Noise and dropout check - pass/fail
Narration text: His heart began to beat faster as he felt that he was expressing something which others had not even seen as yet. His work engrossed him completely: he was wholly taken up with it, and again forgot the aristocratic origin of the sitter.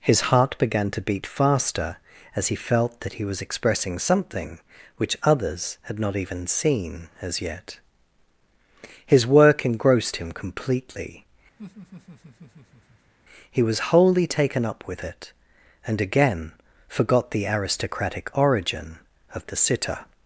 fail